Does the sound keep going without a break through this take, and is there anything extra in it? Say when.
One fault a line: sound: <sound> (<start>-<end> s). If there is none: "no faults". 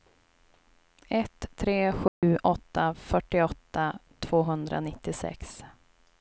sound: dropout (2.1-2.2 s)